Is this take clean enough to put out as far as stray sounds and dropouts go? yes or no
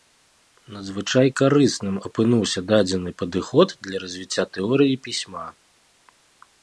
yes